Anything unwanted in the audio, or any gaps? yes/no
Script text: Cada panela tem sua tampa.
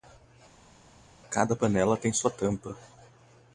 no